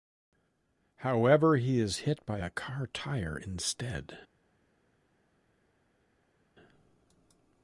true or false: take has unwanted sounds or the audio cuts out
false